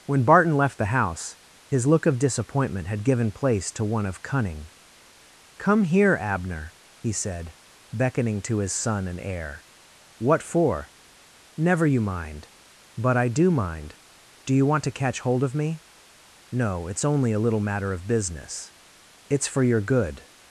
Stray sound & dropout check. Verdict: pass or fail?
pass